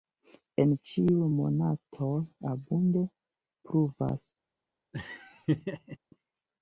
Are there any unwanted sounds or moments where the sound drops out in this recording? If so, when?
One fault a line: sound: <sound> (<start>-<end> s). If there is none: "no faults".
sound: laugh (4.9-6.0 s)